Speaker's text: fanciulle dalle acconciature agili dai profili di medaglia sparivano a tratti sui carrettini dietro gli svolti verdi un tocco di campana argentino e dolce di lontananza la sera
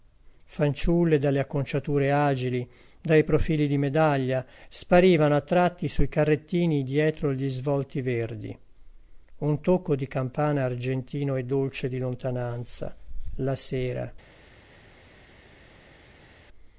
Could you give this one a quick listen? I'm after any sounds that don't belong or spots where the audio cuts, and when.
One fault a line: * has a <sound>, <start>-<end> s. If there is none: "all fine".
all fine